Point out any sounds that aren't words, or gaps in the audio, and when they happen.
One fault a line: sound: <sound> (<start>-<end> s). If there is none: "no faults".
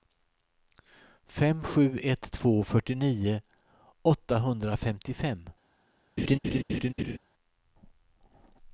sound: laugh (6.2-7.2 s)